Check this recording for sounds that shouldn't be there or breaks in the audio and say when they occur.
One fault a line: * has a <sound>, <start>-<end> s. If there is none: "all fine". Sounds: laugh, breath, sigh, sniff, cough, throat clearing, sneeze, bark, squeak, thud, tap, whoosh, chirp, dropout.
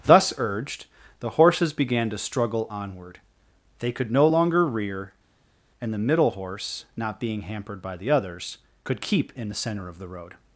all fine